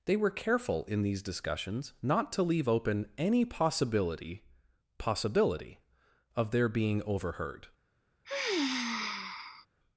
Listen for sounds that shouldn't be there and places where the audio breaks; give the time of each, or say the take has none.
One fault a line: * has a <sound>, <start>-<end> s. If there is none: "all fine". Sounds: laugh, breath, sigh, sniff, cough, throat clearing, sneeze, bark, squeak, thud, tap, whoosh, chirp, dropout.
* has a sigh, 8.2-9.7 s